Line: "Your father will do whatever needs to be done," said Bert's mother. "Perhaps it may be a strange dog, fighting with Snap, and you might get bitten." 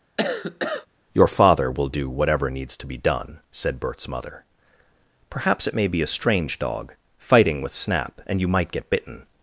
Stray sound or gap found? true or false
true